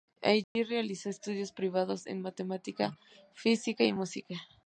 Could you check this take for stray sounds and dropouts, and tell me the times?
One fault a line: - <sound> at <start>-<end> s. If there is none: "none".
- dropout at 0.4-0.6 s